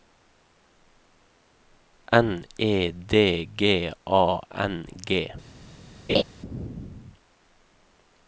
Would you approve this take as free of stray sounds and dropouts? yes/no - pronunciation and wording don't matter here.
no